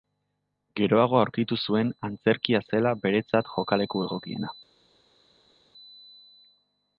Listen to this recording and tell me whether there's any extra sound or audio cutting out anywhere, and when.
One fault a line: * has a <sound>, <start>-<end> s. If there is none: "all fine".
all fine